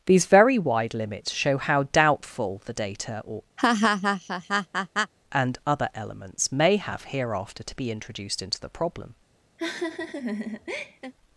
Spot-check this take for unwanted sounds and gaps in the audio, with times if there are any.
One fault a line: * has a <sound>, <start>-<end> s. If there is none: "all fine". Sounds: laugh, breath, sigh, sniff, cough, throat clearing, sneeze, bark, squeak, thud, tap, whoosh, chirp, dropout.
* has a laugh, 3.6-5.1 s
* has a laugh, 9.6-11.1 s